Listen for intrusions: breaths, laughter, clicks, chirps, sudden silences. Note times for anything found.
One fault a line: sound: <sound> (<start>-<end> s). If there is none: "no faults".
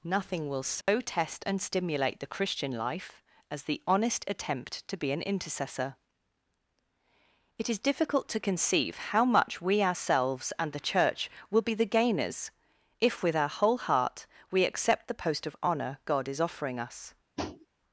sound: dropout (0.8-0.9 s)
sound: tap (17.4-17.7 s)